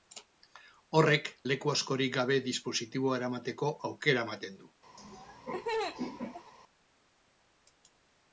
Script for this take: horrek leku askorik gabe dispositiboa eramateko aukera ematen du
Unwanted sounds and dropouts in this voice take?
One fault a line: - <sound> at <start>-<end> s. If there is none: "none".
- laugh at 5.0-6.5 s